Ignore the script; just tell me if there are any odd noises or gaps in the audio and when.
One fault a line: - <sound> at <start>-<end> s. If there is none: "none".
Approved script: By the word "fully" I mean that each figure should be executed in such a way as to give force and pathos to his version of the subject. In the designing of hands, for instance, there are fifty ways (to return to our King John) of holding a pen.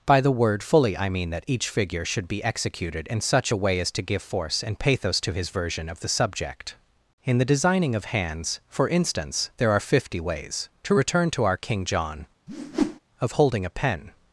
- whoosh at 12.5-13.0 s